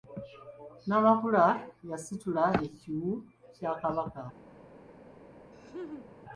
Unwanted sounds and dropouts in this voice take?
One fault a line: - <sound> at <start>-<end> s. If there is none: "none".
- laugh at 5.5-6.1 s